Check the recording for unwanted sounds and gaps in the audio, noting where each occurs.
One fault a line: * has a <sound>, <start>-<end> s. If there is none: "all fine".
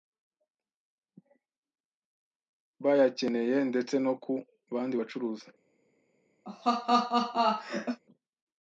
* has a laugh, 6.5-8.0 s